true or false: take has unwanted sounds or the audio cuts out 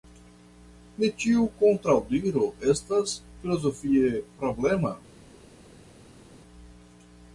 false